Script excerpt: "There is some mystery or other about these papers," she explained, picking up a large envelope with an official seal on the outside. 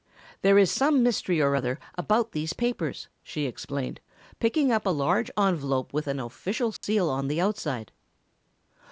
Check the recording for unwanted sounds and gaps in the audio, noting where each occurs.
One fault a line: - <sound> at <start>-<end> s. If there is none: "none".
- dropout at 6.8-6.8 s